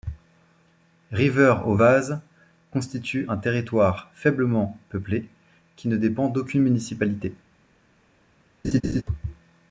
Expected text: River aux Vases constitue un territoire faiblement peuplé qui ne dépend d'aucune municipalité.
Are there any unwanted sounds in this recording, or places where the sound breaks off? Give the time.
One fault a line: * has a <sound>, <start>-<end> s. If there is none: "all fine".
* has a laugh, 8.6-9.0 s